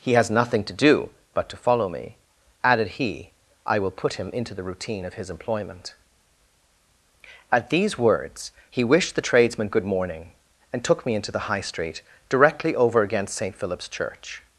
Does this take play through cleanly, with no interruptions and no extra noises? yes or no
yes